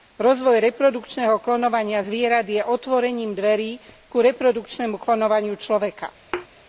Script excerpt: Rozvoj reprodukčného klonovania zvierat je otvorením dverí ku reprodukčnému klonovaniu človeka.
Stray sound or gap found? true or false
true